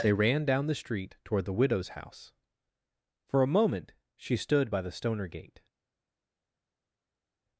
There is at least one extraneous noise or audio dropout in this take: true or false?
false